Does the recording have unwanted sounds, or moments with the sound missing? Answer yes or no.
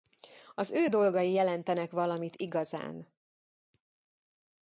no